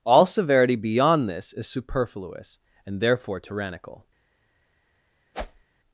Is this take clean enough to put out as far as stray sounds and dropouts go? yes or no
no